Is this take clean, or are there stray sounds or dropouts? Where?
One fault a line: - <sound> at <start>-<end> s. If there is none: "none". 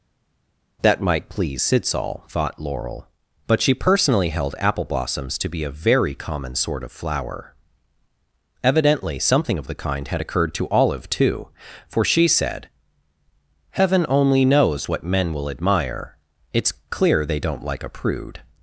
none